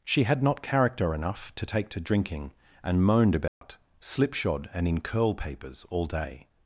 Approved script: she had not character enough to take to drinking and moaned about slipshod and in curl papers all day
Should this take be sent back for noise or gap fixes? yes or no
yes